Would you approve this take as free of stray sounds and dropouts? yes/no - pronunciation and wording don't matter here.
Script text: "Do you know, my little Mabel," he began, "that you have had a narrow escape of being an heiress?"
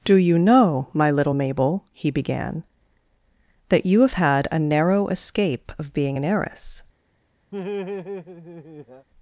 no